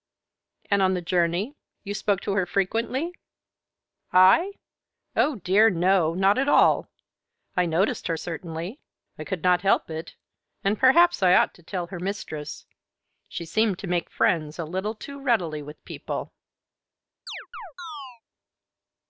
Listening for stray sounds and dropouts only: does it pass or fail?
fail